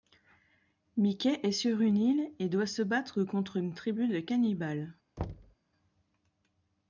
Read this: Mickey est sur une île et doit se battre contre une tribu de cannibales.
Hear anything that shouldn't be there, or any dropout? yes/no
yes